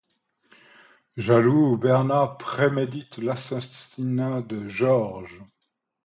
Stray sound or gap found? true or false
false